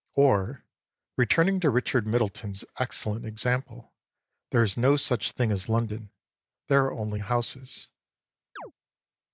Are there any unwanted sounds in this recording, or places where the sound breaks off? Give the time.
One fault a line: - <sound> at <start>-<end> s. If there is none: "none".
- chirp at 8.6-8.7 s